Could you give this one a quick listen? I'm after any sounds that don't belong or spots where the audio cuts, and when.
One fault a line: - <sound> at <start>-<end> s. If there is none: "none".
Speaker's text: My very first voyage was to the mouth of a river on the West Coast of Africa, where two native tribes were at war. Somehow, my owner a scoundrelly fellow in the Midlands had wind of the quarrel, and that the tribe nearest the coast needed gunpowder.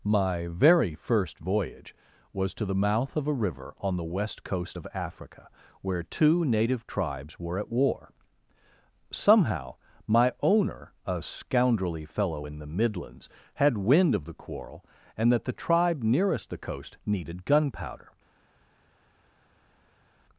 none